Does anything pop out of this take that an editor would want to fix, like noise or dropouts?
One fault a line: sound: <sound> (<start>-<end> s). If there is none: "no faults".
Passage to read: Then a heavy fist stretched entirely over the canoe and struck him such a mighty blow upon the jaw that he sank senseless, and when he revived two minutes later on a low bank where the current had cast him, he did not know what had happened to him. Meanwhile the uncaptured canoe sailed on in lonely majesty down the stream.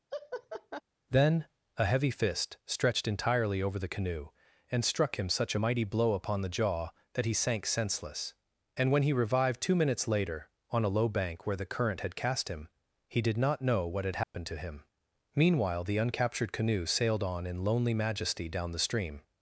sound: laugh (0.1-0.8 s)
sound: dropout (14.2-14.3 s)